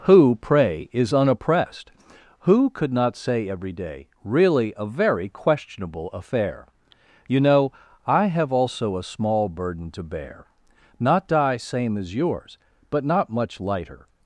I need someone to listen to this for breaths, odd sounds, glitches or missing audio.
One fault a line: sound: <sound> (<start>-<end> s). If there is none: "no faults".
no faults